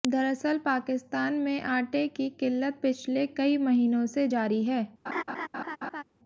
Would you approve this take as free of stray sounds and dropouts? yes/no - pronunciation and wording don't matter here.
no